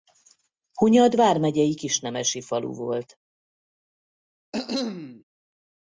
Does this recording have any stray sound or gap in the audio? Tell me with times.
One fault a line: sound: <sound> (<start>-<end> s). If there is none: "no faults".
sound: cough (4.5-5.2 s)